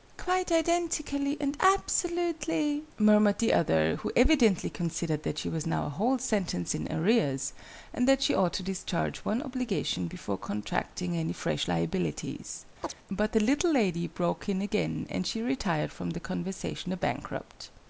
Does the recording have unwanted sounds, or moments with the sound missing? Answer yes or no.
yes